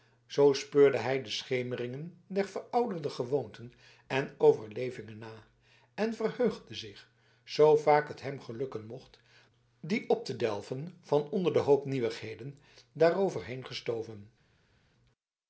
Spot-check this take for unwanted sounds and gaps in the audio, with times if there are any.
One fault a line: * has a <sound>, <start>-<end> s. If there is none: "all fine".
all fine